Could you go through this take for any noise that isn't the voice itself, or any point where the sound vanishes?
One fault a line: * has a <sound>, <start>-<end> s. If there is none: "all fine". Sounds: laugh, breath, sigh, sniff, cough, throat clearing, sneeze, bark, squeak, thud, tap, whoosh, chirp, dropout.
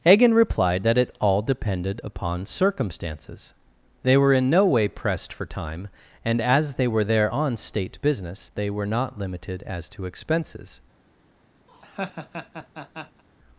* has a laugh, 11.7-13.2 s